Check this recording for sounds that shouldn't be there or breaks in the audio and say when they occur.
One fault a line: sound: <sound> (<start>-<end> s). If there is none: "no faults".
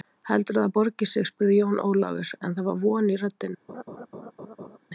sound: laugh (3.7-4.8 s)